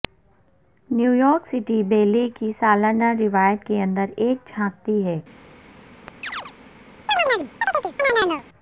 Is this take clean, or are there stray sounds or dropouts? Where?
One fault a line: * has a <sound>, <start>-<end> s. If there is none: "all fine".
* has a chirp, 6.1-6.5 s
* has a chirp, 7.1-8.4 s